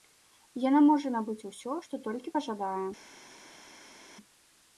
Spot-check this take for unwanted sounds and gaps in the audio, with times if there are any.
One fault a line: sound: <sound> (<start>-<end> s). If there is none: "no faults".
no faults